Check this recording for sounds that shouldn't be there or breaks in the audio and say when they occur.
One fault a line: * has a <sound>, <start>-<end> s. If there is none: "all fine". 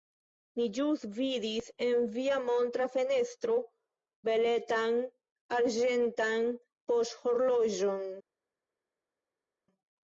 all fine